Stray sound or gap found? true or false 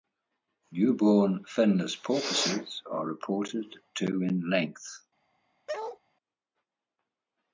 true